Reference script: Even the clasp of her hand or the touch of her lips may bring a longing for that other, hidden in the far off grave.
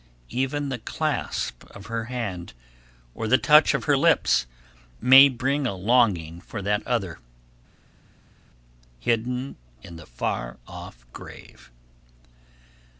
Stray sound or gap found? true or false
false